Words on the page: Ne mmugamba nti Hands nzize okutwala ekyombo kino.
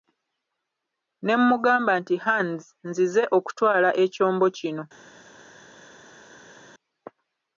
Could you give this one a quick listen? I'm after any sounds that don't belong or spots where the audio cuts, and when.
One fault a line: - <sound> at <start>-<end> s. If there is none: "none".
none